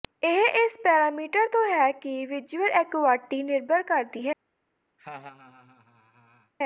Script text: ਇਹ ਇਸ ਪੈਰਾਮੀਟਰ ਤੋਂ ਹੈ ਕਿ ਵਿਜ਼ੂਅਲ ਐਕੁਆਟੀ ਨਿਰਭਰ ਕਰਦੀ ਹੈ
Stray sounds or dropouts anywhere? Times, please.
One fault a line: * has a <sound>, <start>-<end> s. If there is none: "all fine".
* has a laugh, 5.0-6.5 s